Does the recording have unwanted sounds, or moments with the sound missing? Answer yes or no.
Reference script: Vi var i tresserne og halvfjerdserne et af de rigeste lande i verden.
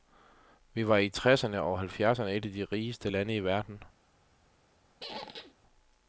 yes